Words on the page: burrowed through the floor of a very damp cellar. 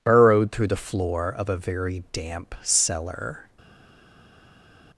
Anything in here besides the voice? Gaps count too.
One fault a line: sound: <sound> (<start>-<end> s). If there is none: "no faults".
no faults